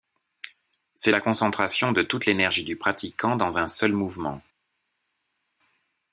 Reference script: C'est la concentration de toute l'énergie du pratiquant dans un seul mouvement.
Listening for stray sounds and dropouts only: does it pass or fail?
pass